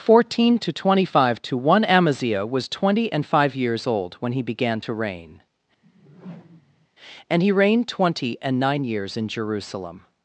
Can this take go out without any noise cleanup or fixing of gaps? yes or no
no